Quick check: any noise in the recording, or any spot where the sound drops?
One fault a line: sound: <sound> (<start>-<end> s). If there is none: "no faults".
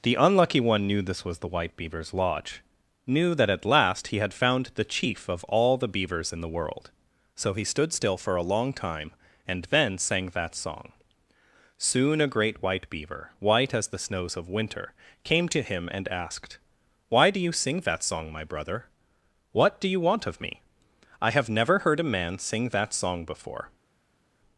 no faults